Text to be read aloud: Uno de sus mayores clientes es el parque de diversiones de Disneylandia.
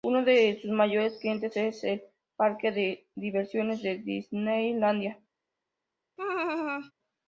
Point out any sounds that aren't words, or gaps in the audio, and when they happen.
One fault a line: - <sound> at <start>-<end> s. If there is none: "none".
- laugh at 6.2-6.9 s